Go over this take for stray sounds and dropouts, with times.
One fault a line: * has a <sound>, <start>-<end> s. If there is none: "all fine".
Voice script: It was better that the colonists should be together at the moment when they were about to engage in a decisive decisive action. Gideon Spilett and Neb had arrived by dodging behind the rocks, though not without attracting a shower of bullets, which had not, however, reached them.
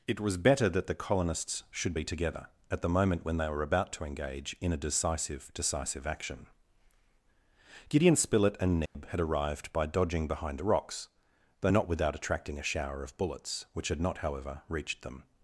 * has a dropout, 8.9-8.9 s